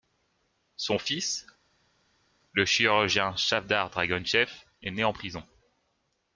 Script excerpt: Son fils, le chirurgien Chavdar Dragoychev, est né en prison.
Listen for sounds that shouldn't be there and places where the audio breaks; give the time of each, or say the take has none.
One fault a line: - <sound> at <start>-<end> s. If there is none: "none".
none